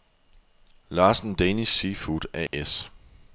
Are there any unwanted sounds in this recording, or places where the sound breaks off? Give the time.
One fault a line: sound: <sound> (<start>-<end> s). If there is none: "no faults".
sound: dropout (2.5-2.5 s)